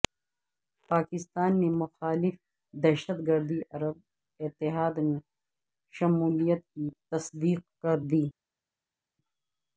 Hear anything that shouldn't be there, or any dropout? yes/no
no